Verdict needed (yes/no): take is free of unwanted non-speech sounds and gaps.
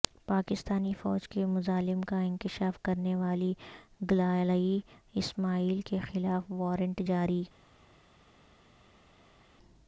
yes